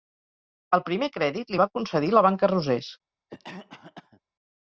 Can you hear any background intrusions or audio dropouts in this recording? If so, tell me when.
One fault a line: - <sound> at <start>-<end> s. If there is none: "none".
- cough at 3.3-4.2 s